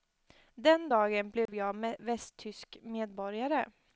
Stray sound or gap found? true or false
true